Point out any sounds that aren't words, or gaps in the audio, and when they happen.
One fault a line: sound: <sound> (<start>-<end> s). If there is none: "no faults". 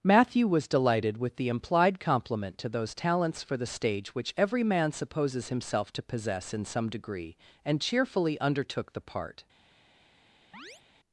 sound: chirp (10.5-10.8 s)